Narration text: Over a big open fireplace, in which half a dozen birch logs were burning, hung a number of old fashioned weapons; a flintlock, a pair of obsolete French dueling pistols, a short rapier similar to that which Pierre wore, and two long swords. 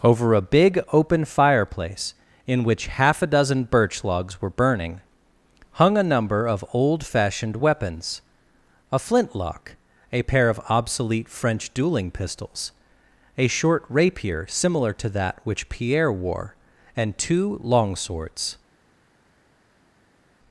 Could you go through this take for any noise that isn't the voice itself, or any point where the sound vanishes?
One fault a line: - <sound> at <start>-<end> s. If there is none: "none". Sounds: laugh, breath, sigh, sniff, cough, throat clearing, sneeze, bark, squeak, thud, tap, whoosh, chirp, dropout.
none